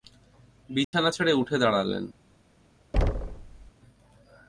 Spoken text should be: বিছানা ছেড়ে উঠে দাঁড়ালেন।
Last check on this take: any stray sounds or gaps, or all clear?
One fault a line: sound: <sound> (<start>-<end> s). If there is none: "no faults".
sound: dropout (0.8-0.9 s)
sound: thud (2.9-3.7 s)